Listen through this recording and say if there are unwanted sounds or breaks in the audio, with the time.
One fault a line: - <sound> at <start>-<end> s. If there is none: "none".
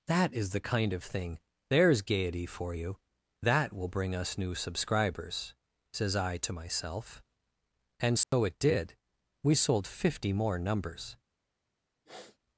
- dropout at 8.2-8.3 s
- sniff at 12.1-12.4 s